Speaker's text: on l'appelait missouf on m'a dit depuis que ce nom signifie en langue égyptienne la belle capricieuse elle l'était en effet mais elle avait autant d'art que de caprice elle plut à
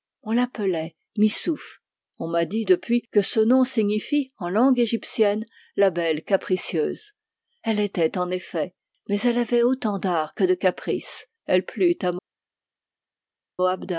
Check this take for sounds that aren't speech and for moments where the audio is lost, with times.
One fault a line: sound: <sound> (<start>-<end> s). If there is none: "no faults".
no faults